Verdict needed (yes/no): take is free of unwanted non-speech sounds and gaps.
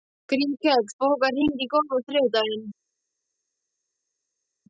yes